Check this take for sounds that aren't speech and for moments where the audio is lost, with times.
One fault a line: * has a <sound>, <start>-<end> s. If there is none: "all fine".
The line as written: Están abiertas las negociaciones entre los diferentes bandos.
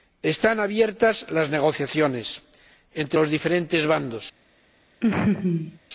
* has a laugh, 5.0-5.8 s